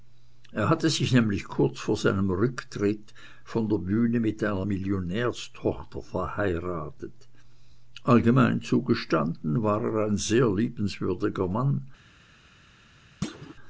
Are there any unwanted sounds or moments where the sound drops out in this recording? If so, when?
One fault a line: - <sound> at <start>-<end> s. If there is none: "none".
- thud at 13.2-13.6 s